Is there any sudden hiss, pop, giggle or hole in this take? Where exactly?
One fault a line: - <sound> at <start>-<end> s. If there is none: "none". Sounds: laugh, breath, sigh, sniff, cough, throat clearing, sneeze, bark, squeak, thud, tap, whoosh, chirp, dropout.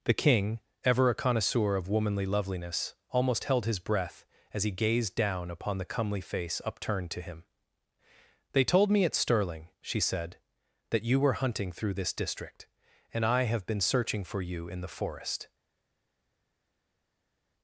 none